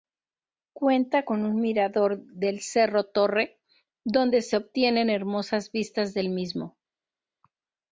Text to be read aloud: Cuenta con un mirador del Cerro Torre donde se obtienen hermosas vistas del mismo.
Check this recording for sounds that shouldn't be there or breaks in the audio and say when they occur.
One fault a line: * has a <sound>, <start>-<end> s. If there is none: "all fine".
all fine